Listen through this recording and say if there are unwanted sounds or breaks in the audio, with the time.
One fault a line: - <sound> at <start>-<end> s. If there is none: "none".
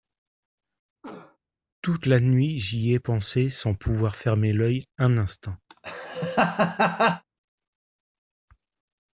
- cough at 1.0-1.4 s
- laugh at 5.7-7.2 s